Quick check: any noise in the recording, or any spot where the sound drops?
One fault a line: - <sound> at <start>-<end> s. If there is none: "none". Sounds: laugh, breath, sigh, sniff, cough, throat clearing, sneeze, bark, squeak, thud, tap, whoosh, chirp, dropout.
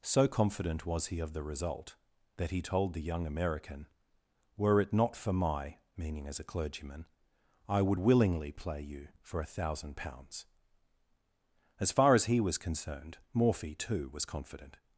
none